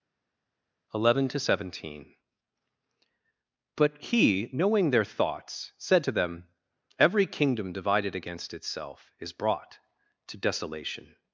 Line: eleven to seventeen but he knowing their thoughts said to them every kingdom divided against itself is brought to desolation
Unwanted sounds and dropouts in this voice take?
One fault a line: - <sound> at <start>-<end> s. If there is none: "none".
none